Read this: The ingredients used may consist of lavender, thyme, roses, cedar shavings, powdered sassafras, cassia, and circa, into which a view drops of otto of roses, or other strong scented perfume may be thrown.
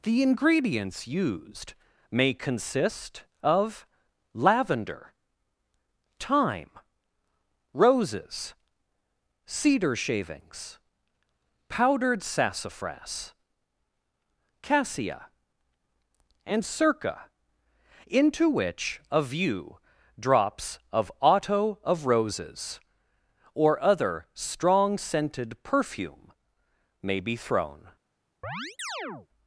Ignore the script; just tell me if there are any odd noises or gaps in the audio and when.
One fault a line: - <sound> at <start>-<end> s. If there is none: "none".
- chirp at 28.4-29.3 s